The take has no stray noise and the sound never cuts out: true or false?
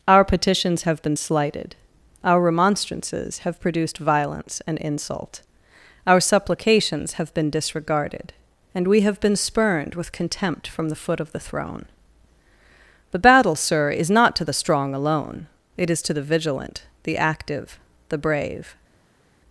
true